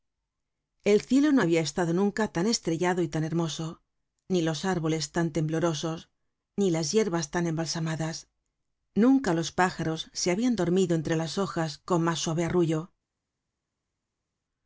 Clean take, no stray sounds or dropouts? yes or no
yes